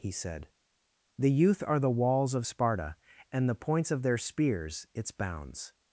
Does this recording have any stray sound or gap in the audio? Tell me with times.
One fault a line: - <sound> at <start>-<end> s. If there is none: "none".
none